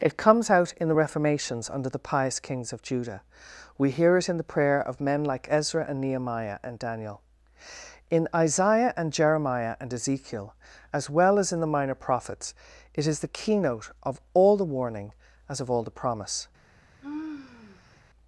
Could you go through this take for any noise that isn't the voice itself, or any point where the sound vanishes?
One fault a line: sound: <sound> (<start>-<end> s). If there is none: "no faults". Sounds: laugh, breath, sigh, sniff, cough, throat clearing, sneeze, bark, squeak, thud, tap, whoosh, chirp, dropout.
sound: sigh (17.0-18.0 s)